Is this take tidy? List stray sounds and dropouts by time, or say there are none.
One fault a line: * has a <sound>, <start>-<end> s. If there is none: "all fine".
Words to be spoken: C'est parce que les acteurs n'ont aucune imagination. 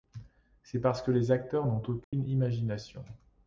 * has a dropout, 2.0-2.1 s